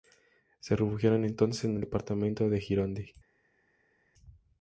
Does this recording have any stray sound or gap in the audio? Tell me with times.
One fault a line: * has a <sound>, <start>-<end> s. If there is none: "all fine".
all fine